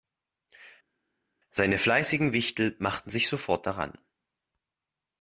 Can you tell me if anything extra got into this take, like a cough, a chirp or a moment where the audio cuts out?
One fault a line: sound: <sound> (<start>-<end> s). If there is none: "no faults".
no faults